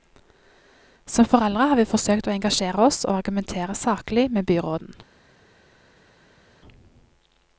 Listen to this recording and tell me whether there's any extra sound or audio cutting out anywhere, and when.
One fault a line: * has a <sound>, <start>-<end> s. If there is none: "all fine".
all fine